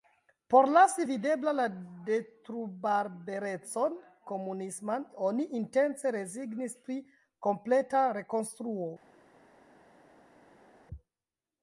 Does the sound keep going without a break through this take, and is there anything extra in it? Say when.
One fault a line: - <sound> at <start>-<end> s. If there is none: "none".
none